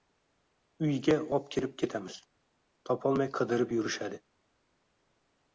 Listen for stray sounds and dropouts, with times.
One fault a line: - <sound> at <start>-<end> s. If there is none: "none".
none